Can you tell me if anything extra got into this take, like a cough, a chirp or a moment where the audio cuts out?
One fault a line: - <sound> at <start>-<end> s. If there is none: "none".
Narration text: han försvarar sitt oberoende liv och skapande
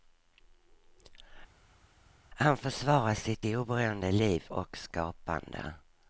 none